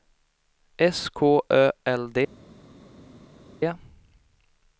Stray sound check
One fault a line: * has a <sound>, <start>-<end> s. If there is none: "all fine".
all fine